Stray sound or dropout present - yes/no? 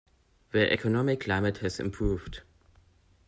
no